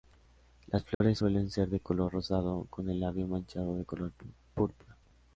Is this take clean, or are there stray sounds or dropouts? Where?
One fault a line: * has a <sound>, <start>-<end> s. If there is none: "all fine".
* has a dropout, 0.9-1.0 s